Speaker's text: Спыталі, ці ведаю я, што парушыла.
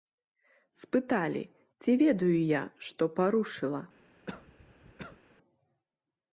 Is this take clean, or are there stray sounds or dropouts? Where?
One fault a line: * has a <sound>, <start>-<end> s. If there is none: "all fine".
* has a cough, 4.3-5.2 s